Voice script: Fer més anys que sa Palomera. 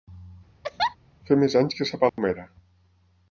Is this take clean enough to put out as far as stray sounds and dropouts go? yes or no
no